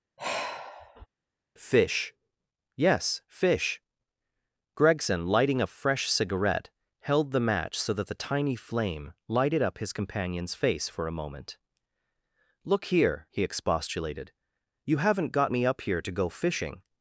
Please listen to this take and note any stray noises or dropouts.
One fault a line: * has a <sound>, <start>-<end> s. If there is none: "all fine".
* has a sigh, 0.2-1.1 s